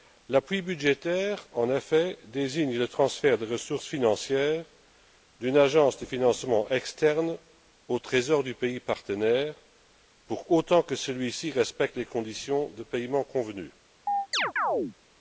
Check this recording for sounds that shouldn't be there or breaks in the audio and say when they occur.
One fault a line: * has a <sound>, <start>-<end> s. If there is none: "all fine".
* has a chirp, 14.1-14.9 s